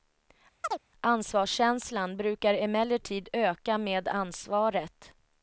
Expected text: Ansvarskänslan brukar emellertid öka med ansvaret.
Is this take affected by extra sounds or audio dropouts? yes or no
yes